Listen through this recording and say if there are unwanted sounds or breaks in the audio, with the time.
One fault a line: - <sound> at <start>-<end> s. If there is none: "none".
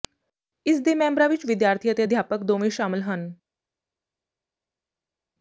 none